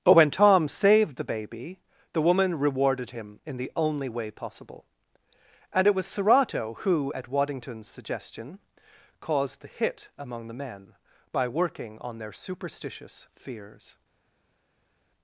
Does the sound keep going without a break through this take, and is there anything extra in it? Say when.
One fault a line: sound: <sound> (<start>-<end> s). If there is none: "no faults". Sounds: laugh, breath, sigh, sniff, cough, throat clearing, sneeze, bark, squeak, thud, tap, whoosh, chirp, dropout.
no faults